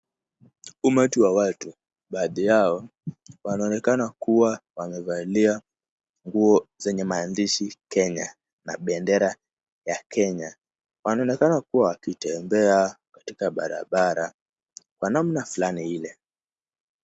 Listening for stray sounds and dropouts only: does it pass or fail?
pass